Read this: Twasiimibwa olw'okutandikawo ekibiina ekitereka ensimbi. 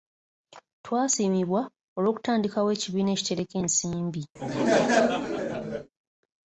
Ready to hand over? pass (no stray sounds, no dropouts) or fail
fail